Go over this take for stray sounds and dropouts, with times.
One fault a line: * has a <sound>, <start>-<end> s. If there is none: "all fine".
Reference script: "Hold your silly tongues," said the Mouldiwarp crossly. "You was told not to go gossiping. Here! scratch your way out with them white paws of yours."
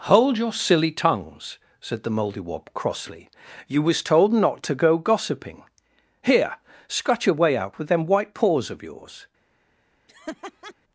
* has a laugh, 10.1-10.7 s